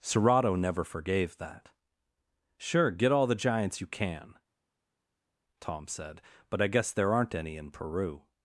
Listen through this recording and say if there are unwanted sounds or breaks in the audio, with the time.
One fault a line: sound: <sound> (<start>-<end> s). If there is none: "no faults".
no faults